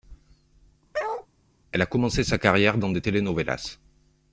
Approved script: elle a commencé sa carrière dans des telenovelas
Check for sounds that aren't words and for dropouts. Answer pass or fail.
fail